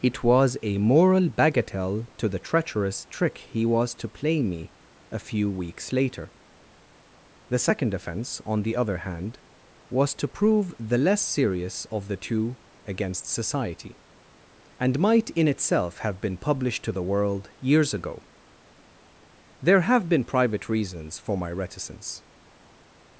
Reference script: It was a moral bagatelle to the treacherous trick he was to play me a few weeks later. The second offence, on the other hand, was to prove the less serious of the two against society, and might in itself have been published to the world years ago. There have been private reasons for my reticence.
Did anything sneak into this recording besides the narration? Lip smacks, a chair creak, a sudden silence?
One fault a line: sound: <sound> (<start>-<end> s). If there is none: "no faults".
no faults